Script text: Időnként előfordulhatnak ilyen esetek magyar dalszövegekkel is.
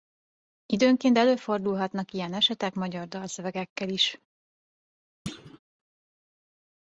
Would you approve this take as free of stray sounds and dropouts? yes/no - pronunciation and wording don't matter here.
no